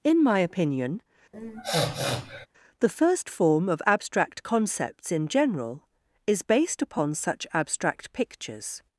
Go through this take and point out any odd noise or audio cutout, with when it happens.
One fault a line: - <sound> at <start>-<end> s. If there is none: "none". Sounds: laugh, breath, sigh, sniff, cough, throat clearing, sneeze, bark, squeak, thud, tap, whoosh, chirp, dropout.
- sniff at 1.3-2.5 s